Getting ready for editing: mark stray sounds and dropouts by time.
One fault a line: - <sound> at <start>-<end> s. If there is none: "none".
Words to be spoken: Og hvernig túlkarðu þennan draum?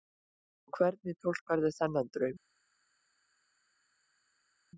none